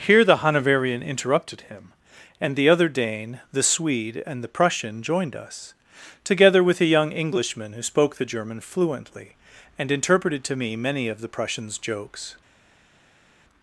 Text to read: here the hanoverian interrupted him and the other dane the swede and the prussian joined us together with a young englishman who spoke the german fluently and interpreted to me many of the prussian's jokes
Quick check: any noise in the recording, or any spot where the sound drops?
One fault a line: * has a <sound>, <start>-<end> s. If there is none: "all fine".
all fine